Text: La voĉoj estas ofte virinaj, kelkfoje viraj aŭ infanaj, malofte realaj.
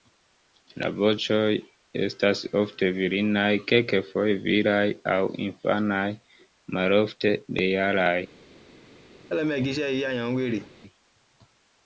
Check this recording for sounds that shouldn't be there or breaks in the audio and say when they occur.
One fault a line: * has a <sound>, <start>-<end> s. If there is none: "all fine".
* has a laugh, 9.3-10.7 s